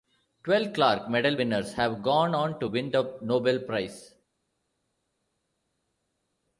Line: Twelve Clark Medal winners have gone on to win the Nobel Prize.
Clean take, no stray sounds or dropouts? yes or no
yes